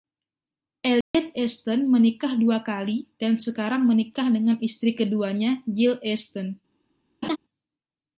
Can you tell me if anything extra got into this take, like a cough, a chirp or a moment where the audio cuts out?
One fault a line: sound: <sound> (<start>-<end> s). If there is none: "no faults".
sound: dropout (1.0-1.1 s)
sound: laugh (7.2-7.4 s)